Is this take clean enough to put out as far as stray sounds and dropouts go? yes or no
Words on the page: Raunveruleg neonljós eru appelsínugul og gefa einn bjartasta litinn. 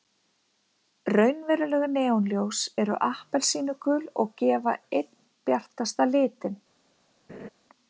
no